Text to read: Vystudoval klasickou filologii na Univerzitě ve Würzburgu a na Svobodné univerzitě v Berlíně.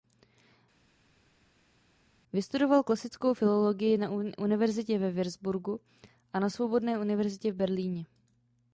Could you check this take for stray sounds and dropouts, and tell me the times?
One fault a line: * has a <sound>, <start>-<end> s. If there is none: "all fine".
all fine